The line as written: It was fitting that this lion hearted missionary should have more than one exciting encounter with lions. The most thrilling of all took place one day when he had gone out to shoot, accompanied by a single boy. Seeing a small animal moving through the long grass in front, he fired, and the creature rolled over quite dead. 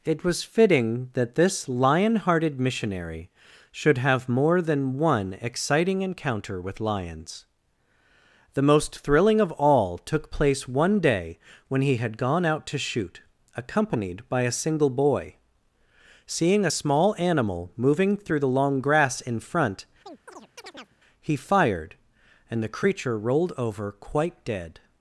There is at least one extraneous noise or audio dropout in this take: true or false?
true